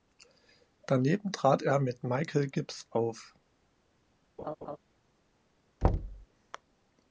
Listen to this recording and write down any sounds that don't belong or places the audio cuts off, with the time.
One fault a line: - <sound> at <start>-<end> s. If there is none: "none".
- laugh at 4.4-4.8 s
- thud at 5.8-6.3 s